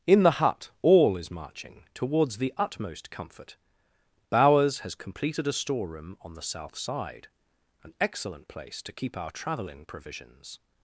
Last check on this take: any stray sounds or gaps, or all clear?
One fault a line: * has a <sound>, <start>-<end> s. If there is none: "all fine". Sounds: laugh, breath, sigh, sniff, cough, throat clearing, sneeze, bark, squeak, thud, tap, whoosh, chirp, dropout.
all fine